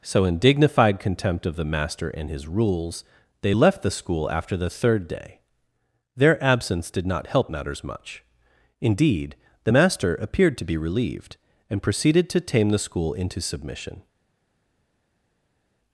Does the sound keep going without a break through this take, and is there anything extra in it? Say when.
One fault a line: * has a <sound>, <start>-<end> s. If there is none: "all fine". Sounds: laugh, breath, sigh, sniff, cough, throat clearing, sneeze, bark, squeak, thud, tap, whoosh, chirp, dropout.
all fine